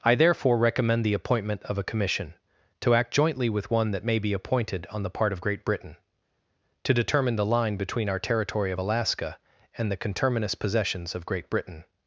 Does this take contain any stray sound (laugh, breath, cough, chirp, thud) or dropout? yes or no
no